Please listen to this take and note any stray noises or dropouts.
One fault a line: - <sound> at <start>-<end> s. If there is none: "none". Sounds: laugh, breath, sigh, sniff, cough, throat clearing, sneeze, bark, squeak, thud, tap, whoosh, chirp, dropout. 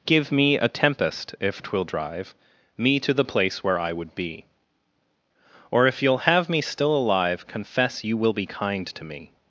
none